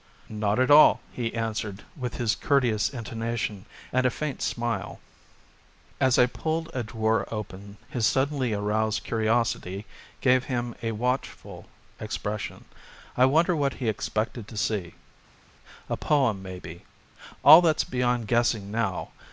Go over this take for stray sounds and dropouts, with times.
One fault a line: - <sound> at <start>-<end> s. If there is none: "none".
none